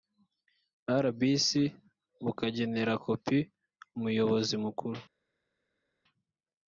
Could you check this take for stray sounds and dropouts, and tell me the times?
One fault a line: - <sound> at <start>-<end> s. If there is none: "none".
none